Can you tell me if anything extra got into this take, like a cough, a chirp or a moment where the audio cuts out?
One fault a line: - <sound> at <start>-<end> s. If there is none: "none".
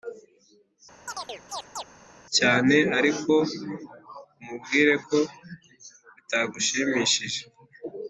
- chirp at 1.1-1.8 s